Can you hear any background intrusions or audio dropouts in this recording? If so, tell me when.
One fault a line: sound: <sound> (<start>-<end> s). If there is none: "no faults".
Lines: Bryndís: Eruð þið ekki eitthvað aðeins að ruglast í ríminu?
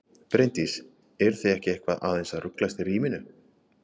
no faults